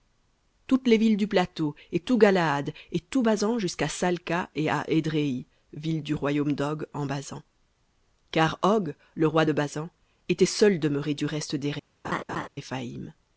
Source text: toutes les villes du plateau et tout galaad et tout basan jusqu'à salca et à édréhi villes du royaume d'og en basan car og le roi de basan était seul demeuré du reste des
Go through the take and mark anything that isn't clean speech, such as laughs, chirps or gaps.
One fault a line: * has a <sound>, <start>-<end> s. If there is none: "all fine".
* has a laugh, 12.0-12.5 s